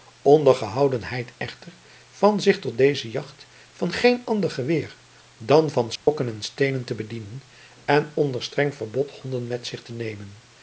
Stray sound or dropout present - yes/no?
yes